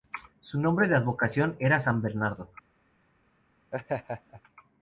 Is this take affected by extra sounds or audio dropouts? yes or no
yes